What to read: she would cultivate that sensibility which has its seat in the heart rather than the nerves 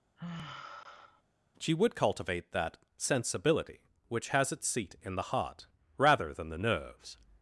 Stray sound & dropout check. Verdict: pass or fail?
fail